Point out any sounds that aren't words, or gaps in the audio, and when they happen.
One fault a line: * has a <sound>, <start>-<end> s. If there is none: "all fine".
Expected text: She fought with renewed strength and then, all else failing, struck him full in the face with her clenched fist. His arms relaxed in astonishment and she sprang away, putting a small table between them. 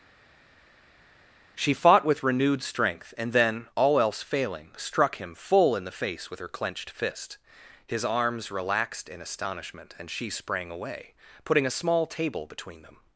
all fine